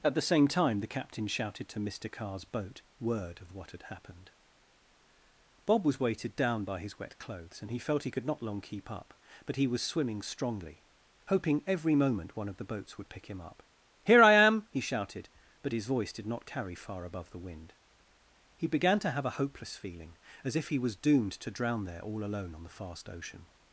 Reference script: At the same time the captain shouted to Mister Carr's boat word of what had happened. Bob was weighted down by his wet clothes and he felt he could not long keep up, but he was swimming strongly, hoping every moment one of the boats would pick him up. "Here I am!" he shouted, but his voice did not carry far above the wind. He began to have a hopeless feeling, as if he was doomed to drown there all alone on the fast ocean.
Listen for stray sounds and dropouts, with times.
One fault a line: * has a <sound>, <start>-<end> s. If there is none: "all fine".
all fine